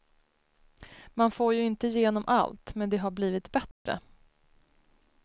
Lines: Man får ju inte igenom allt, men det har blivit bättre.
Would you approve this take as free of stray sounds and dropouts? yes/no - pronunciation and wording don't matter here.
no